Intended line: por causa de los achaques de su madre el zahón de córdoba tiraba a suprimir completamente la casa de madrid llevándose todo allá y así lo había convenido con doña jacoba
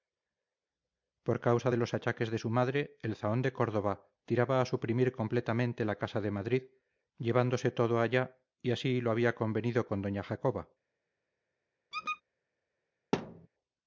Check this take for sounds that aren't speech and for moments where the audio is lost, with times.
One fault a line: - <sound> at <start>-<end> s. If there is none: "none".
- squeak at 11.9-12.2 s
- thud at 13.1-13.5 s